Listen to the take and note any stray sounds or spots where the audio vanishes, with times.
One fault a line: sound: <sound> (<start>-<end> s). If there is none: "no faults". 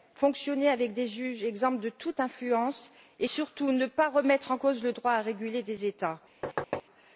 sound: thud (6.4-6.8 s)